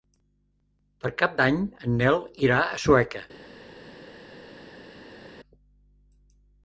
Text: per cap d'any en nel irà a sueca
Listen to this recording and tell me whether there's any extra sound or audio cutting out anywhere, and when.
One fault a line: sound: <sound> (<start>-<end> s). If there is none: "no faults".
no faults